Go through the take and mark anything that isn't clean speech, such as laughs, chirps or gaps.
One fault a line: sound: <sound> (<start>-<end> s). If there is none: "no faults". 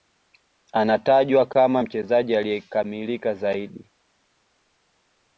no faults